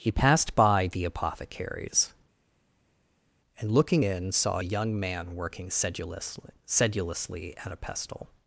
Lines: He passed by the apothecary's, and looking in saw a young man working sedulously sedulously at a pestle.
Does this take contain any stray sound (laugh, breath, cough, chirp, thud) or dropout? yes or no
no